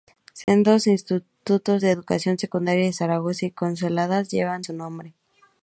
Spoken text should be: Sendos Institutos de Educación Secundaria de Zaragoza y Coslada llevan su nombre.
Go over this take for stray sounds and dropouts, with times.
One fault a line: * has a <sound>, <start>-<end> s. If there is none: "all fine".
* has a dropout, 0.4-0.5 s